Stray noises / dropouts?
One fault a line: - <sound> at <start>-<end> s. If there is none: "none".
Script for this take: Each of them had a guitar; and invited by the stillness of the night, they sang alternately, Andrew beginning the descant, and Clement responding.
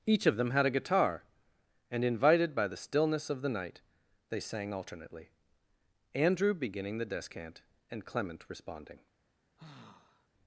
- sigh at 9.6-10.3 s